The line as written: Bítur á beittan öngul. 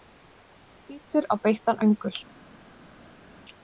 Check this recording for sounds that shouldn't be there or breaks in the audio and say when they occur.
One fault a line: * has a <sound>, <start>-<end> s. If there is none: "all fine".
all fine